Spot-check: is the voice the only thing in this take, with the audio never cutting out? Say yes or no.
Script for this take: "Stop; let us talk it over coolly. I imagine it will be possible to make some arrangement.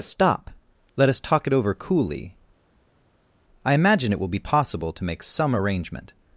yes